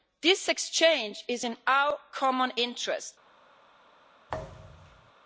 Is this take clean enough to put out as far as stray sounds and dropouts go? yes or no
no